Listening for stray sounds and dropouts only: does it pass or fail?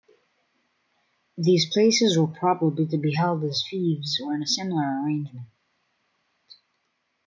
pass